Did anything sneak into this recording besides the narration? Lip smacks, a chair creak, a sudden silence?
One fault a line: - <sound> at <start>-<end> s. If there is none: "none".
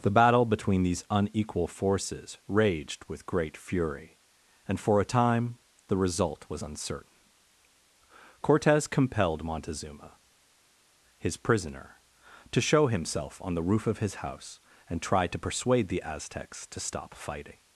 none